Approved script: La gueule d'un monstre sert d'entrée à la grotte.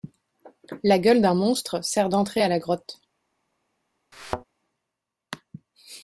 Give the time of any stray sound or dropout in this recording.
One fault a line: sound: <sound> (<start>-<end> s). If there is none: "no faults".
sound: thud (4.1-4.4 s)